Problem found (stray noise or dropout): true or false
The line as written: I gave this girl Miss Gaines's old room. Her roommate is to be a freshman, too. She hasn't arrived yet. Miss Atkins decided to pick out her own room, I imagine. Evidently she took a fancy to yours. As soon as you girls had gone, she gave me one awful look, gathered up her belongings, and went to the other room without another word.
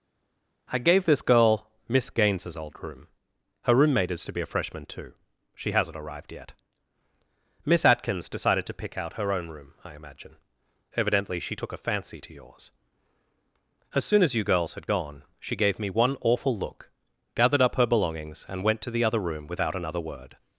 false